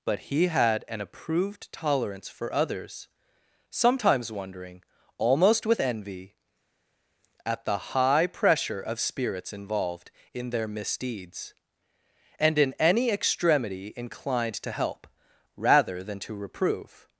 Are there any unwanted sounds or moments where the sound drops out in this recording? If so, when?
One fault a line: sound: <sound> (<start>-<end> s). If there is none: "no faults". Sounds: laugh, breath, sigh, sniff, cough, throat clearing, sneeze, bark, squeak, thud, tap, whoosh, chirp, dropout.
no faults